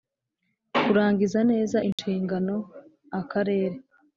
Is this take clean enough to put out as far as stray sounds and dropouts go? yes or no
no